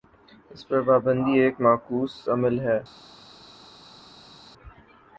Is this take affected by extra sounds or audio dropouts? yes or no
no